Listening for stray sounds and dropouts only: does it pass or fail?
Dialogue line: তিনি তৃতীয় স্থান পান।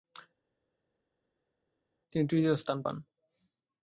pass